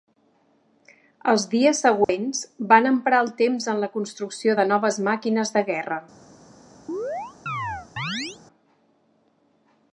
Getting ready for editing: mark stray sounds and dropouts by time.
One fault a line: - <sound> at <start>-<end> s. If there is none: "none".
- dropout at 2.0-2.1 s
- chirp at 6.9-8.4 s